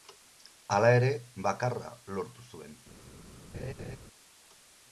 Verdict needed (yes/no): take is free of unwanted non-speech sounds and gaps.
no